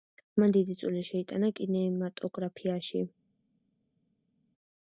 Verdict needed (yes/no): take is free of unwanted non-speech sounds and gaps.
yes